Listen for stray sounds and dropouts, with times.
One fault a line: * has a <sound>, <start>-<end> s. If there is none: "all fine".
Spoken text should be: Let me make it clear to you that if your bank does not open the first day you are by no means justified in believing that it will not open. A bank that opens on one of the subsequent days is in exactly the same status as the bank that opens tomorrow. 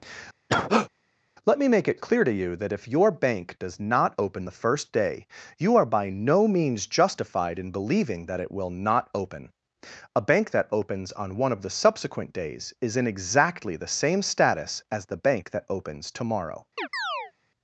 * has a cough, 0.5-0.9 s
* has a chirp, 16.8-17.3 s